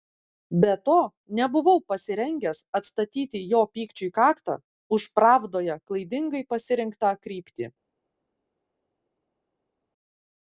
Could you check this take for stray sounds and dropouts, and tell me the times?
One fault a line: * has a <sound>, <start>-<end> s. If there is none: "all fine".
all fine